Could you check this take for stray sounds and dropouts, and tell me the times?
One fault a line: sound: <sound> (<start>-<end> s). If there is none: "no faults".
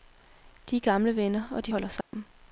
sound: dropout (2.0-2.1 s)